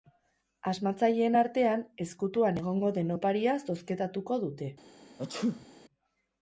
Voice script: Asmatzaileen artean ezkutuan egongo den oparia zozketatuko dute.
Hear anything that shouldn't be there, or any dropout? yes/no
yes